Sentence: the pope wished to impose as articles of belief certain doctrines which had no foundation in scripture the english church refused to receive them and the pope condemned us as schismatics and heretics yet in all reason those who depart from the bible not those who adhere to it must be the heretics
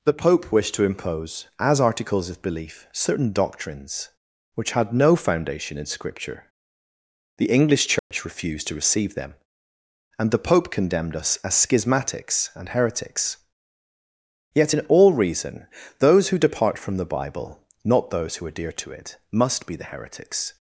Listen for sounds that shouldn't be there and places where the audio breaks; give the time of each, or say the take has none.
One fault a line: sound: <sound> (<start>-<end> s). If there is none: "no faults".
sound: dropout (8.0-8.1 s)